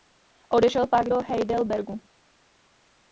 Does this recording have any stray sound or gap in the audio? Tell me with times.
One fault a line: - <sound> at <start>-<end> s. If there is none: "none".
none